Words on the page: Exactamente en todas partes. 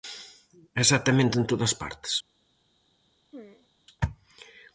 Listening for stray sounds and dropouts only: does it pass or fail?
fail